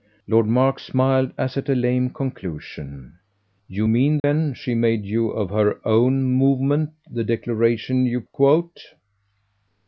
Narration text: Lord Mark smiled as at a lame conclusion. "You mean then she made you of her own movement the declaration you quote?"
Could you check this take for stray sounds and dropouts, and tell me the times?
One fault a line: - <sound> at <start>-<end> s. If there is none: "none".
- dropout at 4.2-4.2 s